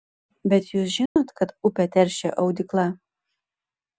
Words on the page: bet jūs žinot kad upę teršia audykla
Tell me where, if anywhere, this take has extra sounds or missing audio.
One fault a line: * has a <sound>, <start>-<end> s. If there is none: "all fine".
* has a dropout, 1.1-1.2 s